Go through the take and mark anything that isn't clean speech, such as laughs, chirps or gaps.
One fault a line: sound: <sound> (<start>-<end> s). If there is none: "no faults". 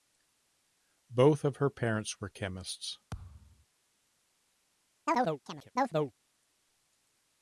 sound: thud (3.1-3.7 s)
sound: chirp (5.1-6.1 s)